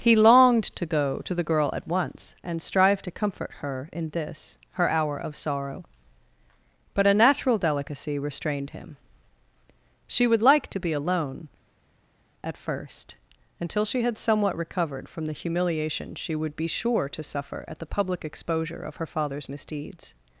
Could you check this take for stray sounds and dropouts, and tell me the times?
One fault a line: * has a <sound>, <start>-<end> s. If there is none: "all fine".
all fine